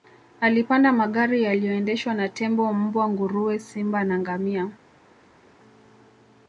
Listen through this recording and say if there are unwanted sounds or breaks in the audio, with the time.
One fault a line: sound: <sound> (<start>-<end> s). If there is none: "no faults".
no faults